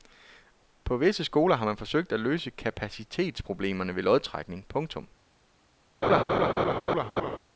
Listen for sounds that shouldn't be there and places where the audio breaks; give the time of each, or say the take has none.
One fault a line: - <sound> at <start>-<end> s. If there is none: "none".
- laugh at 6.0-7.4 s